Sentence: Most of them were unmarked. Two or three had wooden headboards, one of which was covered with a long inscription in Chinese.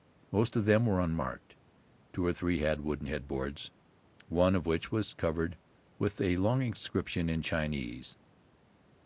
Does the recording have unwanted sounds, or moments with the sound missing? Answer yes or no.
no